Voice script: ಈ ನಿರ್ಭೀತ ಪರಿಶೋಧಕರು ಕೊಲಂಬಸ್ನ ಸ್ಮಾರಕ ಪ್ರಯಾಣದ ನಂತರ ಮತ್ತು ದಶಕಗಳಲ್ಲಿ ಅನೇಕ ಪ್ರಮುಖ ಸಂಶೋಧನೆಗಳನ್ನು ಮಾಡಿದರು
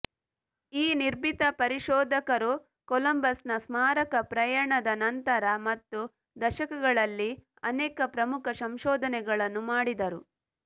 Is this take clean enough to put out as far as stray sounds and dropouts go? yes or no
yes